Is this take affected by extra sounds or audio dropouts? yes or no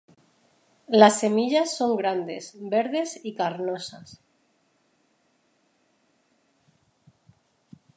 no